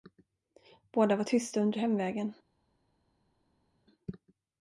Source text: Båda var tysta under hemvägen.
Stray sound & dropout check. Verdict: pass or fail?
pass